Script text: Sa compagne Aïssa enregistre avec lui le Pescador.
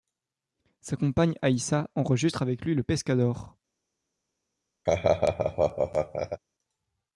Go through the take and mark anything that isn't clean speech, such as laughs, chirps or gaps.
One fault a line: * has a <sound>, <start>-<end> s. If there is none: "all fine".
* has a laugh, 4.9-6.4 s